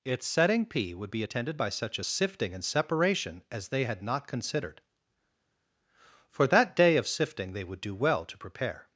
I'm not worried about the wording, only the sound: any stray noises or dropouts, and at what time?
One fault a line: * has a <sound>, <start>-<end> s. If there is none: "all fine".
all fine